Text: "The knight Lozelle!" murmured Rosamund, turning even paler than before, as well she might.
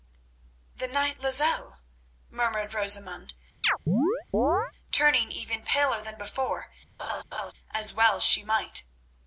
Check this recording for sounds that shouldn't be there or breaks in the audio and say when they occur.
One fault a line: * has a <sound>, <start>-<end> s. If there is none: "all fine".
* has a chirp, 3.6-4.7 s
* has a laugh, 7.0-7.5 s